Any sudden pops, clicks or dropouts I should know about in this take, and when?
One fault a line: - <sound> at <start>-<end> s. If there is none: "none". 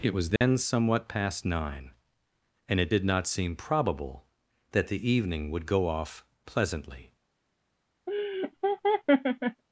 - dropout at 0.4-0.4 s
- laugh at 8.1-9.6 s